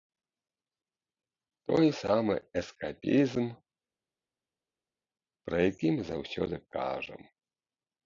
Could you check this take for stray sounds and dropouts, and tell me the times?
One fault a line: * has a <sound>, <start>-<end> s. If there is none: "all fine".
all fine